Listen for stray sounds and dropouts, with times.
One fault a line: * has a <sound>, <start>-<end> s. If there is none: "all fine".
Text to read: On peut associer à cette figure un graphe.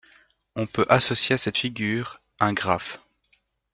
all fine